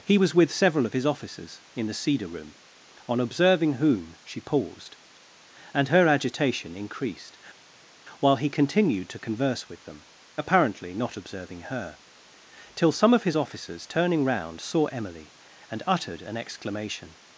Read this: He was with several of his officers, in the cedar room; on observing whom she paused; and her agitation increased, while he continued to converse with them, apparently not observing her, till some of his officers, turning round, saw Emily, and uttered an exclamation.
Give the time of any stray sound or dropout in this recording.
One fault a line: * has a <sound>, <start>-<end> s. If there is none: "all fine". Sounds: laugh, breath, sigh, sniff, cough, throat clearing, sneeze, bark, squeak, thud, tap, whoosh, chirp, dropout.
all fine